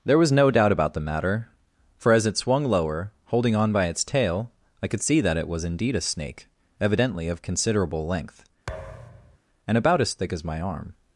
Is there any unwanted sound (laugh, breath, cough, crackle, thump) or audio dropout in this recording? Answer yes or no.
yes